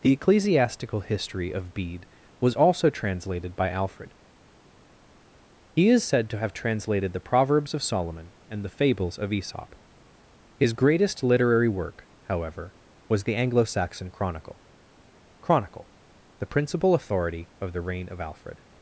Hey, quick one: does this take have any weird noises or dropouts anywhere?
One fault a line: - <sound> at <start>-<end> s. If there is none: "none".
none